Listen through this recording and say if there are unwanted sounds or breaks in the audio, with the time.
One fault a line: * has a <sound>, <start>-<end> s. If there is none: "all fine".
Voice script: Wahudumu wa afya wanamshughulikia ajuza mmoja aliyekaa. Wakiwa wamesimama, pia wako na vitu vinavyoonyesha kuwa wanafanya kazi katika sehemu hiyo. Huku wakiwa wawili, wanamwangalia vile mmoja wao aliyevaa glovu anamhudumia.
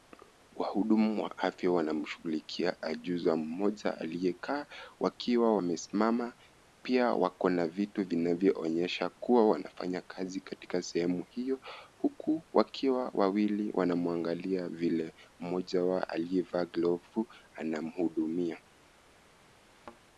* has a thud, 19.6-20.0 s